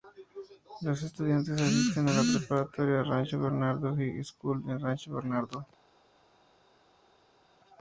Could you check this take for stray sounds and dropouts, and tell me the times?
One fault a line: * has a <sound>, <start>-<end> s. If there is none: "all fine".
all fine